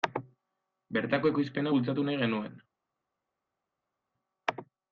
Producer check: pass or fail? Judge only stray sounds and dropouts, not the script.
pass